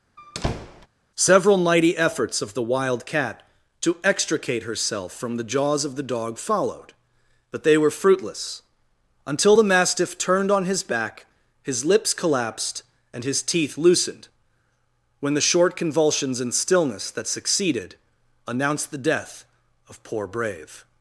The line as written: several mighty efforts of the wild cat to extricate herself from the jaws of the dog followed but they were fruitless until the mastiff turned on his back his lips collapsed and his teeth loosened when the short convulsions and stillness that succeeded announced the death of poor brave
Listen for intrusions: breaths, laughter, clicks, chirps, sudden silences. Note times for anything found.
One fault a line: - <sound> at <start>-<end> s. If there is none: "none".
- squeak at 0.2-0.9 s